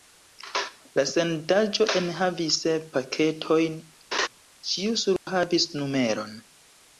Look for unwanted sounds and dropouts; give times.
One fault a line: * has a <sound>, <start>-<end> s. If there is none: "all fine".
* has a laugh, 4.1-4.3 s
* has a dropout, 5.2-5.3 s